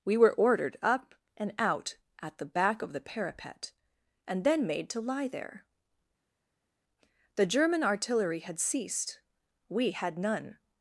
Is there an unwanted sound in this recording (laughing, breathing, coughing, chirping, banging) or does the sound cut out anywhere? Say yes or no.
no